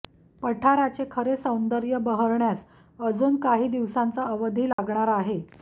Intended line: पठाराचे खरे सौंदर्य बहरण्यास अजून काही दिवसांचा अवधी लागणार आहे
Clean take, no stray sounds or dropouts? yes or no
no